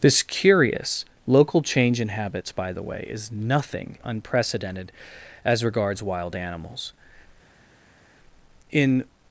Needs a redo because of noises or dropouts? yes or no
no